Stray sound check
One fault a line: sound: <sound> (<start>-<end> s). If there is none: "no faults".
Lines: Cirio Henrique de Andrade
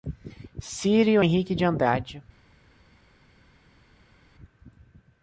no faults